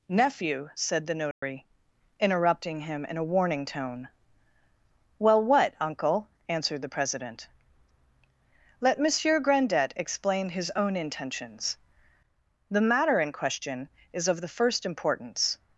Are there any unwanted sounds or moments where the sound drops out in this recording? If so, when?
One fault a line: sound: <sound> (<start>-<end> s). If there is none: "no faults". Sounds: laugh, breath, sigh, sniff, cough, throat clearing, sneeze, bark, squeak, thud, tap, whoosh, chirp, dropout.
sound: dropout (1.3-1.4 s)